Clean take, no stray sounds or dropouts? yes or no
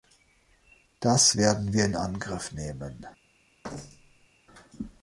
no